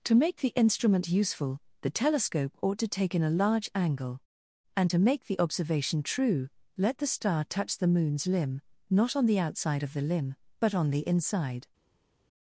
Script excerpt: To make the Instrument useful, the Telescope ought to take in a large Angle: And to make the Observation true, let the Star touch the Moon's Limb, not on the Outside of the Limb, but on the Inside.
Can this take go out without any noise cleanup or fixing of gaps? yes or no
yes